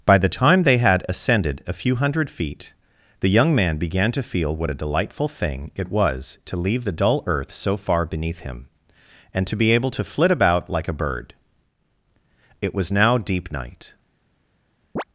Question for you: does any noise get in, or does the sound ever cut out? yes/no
yes